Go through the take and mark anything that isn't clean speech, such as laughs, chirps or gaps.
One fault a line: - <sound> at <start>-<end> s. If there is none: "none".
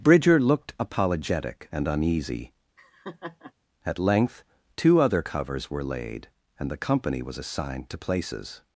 - laugh at 2.8-3.5 s